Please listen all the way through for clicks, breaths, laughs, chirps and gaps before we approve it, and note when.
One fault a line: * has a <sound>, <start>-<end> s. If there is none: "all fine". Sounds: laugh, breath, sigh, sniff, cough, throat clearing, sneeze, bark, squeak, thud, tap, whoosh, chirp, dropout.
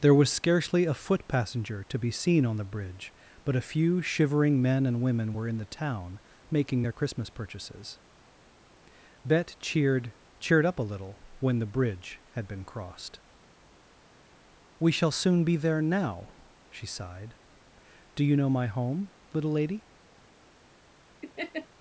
* has a laugh, 21.2-21.7 s